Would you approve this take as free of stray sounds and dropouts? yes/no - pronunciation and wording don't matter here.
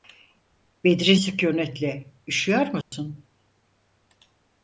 no